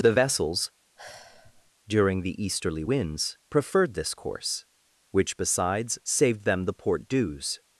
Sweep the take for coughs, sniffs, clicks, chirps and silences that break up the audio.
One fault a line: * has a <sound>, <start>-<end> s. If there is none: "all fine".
* has a sigh, 1.0-1.7 s